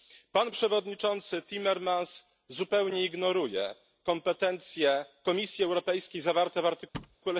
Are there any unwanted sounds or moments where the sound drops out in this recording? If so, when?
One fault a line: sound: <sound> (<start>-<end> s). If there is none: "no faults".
sound: thud (6.9-7.2 s)